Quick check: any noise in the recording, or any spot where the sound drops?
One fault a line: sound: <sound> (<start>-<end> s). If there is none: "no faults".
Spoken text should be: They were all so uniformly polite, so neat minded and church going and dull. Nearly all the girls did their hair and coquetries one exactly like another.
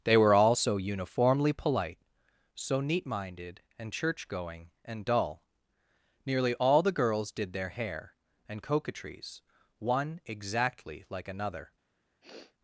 sound: sniff (12.2-12.5 s)